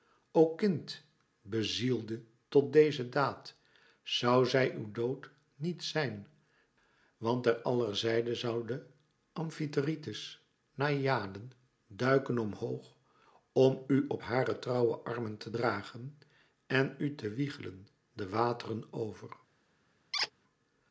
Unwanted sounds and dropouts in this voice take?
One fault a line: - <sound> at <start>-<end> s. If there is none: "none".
- squeak at 20.1-20.3 s